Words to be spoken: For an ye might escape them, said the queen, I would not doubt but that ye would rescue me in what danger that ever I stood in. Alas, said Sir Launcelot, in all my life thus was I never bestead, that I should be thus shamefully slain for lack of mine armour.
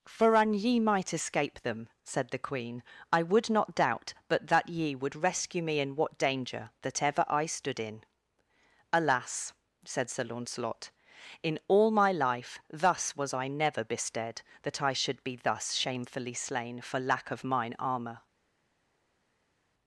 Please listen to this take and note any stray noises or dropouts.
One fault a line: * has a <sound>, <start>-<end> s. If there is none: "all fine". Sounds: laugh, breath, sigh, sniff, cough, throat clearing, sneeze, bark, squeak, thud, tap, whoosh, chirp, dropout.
all fine